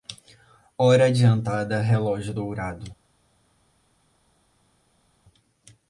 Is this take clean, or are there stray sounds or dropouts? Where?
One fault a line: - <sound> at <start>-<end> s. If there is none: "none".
none